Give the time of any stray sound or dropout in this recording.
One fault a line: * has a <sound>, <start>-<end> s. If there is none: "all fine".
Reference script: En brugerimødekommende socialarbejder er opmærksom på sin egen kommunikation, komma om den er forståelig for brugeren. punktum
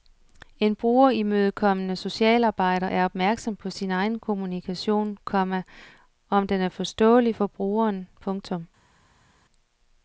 all fine